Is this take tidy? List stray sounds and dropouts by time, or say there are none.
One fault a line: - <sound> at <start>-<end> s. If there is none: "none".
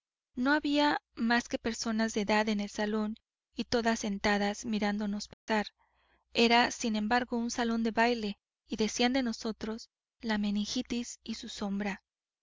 - dropout at 5.3-5.5 s